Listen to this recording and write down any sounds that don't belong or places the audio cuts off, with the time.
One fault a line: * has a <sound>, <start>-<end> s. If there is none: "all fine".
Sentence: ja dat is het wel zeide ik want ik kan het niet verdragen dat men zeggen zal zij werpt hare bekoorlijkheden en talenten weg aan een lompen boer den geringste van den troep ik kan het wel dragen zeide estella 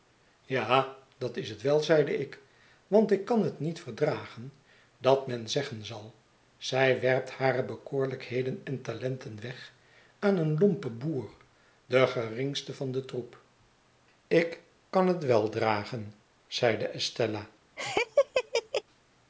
* has a laugh, 17.8-18.8 s